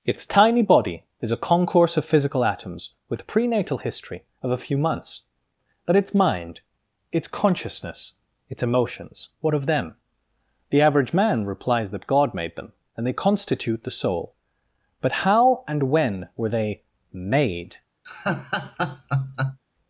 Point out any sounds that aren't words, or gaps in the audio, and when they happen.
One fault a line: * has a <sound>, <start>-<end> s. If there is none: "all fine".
* has a laugh, 18.0-19.6 s